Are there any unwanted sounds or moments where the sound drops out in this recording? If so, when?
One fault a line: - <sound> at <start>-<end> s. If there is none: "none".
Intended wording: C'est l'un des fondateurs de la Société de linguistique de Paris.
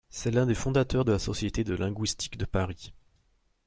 none